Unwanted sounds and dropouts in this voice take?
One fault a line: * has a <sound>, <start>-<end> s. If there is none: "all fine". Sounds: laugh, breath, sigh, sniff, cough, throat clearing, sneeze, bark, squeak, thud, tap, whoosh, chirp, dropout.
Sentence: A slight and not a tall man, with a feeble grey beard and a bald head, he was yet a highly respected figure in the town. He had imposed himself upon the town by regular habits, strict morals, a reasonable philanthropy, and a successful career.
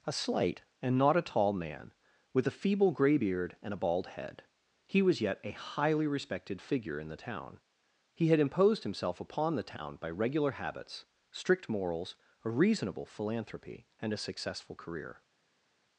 all fine